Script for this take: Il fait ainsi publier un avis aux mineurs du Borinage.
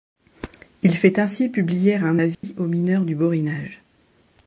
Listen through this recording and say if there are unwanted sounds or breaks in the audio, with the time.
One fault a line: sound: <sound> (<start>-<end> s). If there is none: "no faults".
sound: dropout (2.3-2.4 s)